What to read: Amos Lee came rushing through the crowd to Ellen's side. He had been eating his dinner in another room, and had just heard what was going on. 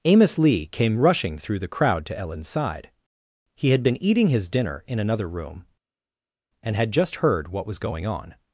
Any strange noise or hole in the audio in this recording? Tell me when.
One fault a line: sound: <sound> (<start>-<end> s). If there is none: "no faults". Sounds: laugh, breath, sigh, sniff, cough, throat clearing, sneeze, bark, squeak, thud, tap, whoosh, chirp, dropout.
no faults